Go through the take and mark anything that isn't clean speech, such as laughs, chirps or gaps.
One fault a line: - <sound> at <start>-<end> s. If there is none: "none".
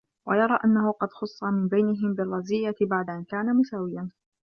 none